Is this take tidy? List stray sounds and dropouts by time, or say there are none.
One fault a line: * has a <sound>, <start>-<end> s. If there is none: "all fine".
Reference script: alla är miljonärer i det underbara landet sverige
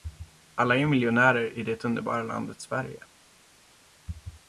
all fine